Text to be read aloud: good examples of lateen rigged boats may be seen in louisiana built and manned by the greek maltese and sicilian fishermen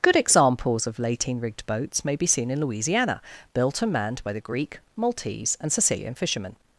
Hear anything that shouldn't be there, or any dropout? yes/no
no